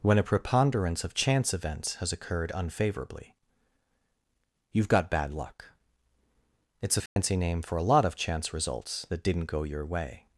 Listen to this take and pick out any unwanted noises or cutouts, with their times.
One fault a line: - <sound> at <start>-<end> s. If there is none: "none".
- dropout at 7.1-7.2 s